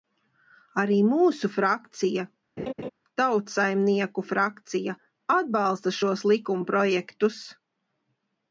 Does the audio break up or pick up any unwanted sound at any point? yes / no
yes